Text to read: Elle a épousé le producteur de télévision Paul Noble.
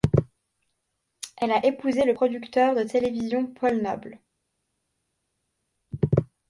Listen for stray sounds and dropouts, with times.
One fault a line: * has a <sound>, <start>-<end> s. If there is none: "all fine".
all fine